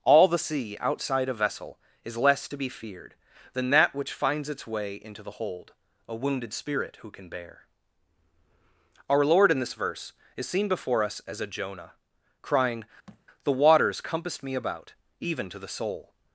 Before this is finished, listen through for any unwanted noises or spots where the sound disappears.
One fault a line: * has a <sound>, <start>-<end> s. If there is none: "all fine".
* has a thud, 13.1-13.3 s